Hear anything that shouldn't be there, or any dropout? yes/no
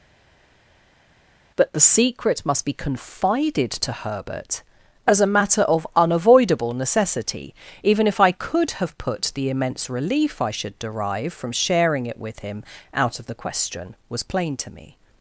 no